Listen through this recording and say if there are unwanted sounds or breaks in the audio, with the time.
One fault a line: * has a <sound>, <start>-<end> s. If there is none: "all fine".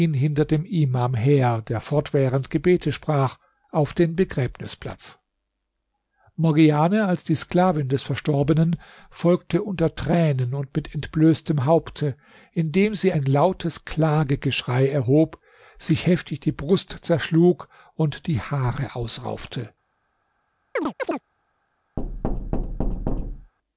* has a chirp, 20.8-21.2 s
* has a thud, 22.0-23.5 s